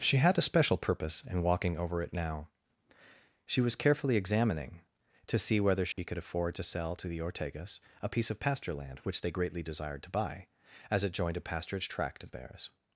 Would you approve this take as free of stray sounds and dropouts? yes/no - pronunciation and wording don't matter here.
no